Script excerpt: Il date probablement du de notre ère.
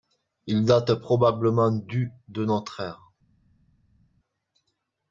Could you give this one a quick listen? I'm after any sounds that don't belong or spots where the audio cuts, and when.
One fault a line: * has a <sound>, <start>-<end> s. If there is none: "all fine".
all fine